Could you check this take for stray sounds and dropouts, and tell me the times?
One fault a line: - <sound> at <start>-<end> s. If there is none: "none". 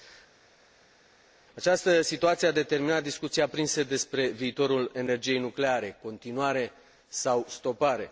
none